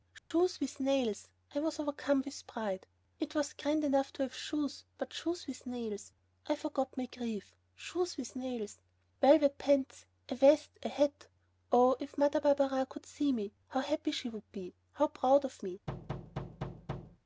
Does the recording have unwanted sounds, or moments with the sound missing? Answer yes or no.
yes